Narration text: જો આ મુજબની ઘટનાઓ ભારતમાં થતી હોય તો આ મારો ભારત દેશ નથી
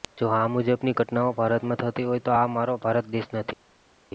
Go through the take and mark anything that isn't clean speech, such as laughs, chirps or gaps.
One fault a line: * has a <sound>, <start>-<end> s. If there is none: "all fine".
all fine